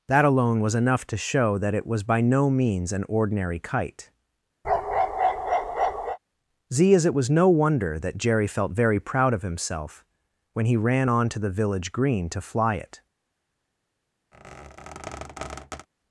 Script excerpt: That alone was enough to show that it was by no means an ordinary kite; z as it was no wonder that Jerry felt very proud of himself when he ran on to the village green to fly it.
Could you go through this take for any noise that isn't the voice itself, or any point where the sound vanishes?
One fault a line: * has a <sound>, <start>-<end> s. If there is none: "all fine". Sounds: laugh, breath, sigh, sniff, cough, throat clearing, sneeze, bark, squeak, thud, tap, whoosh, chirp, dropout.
* has a bark, 4.6-6.2 s
* has a squeak, 14.3-15.9 s